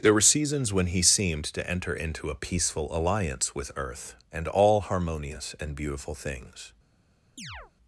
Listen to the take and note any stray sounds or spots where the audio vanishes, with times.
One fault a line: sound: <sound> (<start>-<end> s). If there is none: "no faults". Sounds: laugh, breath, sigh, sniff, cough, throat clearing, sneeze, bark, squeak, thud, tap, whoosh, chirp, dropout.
sound: chirp (7.4-7.7 s)